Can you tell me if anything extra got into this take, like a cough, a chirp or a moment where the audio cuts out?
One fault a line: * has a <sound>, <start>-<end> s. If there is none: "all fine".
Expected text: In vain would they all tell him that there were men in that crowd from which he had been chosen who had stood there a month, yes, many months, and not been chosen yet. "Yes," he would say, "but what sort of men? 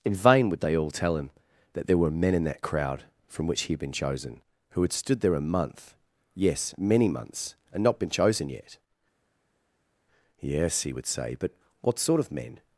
all fine